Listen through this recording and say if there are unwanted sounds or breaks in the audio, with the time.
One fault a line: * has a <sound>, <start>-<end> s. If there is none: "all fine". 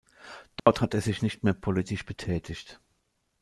* has a dropout, 0.6-0.7 s